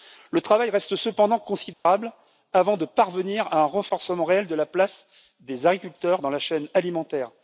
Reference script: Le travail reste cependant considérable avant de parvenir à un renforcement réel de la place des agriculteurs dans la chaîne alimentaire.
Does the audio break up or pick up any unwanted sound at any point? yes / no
yes